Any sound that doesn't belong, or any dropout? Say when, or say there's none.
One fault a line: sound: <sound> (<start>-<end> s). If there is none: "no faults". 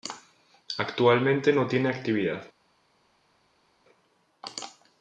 no faults